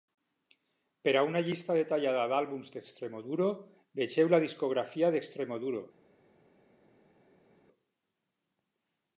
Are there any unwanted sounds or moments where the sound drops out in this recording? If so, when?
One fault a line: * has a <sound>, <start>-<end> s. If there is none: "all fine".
all fine